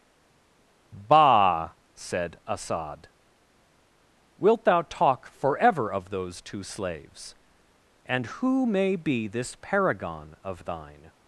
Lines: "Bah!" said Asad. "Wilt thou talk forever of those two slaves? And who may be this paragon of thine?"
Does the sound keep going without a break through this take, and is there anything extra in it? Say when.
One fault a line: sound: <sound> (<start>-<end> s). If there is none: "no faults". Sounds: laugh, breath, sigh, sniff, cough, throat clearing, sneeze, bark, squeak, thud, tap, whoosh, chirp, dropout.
no faults